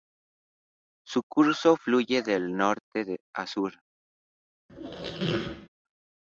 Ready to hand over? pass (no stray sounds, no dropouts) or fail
fail